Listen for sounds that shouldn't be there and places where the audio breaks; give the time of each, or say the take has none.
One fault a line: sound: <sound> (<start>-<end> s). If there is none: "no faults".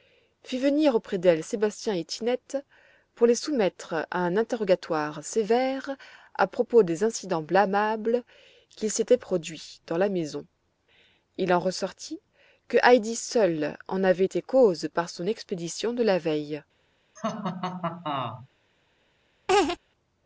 sound: laugh (17.2-18.5 s)
sound: laugh (19.5-19.8 s)